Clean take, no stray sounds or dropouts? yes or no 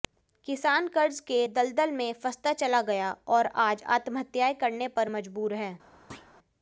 no